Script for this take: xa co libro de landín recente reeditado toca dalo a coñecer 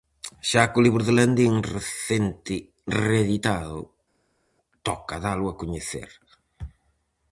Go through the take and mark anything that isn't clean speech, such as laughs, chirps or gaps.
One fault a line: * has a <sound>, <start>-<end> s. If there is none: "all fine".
all fine